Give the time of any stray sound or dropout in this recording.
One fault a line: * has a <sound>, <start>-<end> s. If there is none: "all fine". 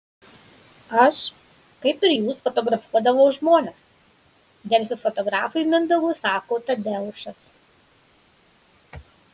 all fine